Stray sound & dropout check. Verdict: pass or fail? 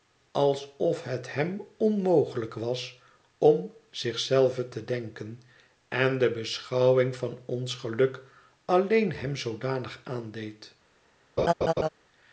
fail